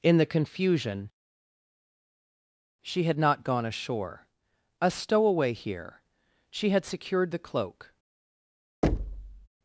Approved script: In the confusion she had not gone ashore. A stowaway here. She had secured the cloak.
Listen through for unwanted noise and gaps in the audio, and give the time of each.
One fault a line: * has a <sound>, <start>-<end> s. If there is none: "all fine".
* has a thud, 8.8-9.5 s